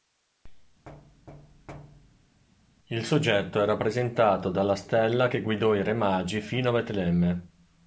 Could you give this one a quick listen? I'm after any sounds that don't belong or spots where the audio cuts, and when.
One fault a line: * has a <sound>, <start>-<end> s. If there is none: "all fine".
* has a thud, 0.9-2.4 s